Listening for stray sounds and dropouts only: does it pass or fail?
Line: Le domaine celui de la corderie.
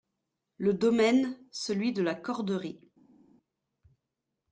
pass